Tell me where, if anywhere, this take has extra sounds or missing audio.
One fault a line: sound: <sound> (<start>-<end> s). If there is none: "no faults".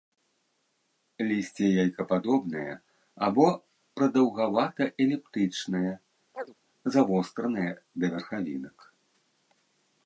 sound: chirp (6.3-6.5 s)